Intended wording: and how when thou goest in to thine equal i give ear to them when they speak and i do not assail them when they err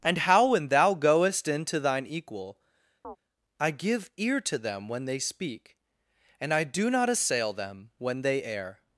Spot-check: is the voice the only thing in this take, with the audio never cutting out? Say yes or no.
no